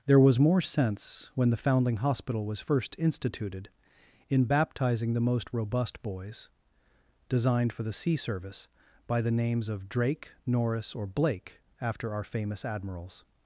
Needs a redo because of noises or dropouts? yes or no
no